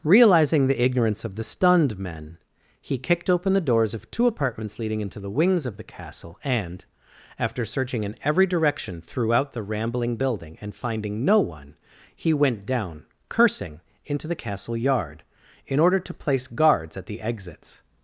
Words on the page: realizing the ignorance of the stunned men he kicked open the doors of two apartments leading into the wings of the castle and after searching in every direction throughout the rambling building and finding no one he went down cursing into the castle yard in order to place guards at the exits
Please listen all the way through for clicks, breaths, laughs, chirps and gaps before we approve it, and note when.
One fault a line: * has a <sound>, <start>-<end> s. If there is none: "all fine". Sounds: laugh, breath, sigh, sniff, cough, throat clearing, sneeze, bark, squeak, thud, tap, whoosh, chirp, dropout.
all fine